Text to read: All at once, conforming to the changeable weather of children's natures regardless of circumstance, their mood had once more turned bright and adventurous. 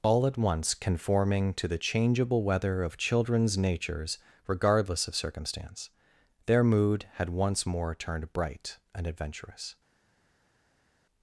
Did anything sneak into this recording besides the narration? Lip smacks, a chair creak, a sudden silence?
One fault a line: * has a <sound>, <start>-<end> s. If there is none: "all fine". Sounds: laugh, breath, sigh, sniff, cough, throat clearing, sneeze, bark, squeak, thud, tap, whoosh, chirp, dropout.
all fine